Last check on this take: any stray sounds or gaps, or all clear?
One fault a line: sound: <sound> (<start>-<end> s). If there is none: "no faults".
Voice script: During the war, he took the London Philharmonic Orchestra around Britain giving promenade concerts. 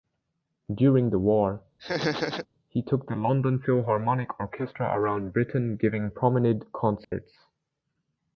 sound: laugh (1.8-2.5 s)
sound: dropout (7.0-7.1 s)